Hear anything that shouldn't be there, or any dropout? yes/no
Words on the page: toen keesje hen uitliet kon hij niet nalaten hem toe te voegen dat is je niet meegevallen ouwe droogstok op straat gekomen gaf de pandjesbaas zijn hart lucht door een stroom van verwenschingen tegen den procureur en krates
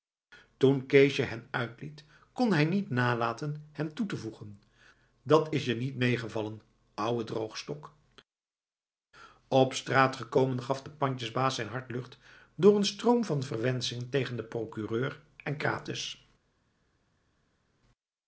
no